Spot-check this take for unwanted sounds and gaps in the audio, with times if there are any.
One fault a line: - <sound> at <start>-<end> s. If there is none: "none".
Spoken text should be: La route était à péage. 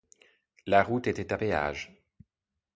none